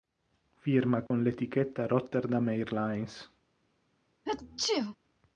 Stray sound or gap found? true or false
true